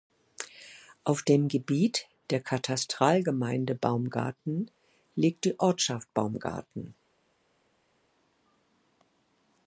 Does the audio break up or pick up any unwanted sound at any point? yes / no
no